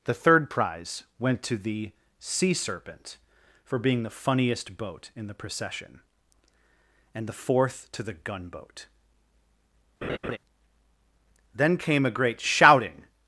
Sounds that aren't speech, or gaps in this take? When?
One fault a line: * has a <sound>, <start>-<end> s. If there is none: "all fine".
* has a laugh, 10.0-10.4 s